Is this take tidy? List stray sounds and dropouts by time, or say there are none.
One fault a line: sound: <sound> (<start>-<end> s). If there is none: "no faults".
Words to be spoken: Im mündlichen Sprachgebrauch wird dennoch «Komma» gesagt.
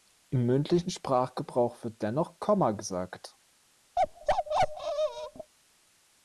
sound: bark (4.0-5.5 s)